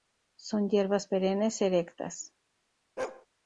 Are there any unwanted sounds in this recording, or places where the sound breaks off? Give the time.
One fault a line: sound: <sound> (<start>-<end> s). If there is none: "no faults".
sound: bark (3.0-3.3 s)